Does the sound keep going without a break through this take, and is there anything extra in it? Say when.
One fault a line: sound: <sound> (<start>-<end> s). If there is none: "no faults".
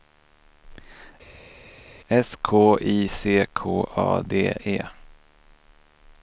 no faults